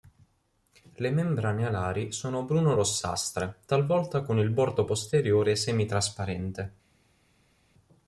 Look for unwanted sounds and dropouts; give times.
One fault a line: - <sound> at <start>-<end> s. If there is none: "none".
none